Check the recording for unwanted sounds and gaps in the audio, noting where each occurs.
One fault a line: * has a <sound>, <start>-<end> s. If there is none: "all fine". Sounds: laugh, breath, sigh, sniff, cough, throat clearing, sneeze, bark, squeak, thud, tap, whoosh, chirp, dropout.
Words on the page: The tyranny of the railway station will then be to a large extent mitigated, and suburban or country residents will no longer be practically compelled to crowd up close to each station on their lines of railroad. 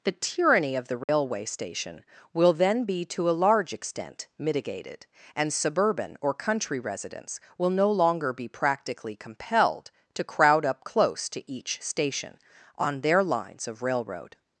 * has a dropout, 1.0-1.1 s